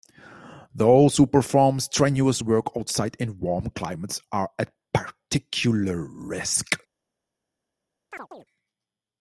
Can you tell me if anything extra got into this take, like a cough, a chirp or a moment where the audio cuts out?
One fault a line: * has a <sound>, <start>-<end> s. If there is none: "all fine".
* has a chirp, 8.1-8.5 s